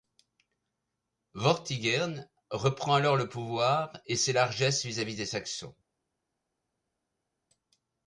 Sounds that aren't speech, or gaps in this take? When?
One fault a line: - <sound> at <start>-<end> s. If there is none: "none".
none